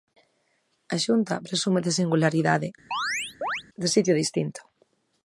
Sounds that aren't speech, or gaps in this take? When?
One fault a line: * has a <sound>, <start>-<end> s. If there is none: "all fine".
* has a chirp, 2.9-3.6 s